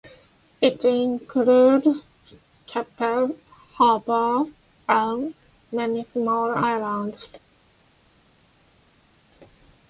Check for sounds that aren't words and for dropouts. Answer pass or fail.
pass